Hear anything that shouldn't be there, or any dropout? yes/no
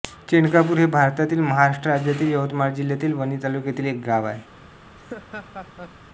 yes